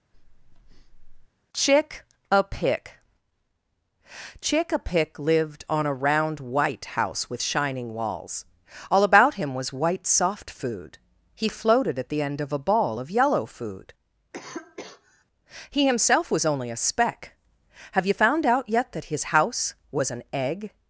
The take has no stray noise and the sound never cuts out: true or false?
false